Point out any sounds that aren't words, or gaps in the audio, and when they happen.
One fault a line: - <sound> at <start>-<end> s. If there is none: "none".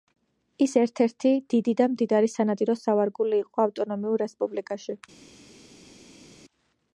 none